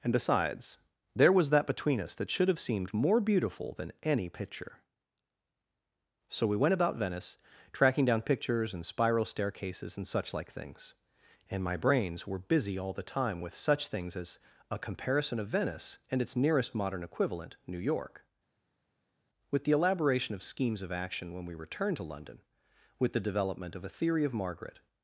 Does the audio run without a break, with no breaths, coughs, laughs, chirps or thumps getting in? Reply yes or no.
yes